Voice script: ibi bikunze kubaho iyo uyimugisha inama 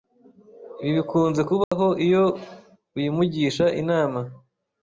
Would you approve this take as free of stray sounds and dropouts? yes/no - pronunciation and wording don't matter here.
no